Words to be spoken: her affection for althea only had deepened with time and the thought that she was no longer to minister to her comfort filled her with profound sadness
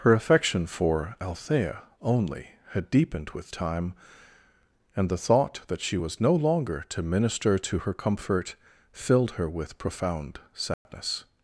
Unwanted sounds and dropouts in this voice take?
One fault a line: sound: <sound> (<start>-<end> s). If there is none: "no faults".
sound: dropout (10.7-10.9 s)